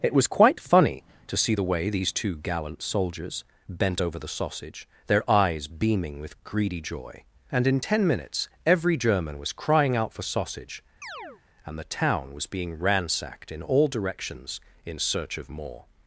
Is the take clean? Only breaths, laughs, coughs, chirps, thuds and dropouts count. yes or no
no